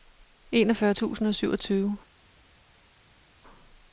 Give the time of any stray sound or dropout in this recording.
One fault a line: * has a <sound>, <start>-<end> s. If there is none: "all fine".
all fine